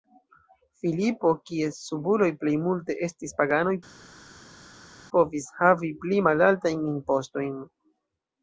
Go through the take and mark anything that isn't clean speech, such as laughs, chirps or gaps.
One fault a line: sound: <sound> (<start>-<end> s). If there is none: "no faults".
no faults